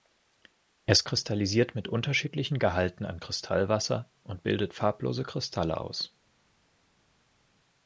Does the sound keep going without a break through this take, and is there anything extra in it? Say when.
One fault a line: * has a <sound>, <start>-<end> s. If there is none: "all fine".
all fine